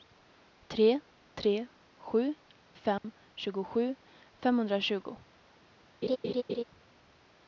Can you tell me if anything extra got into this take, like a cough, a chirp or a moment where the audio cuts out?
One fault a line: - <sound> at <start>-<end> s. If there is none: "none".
- dropout at 3.0-3.0 s
- laugh at 6.0-6.6 s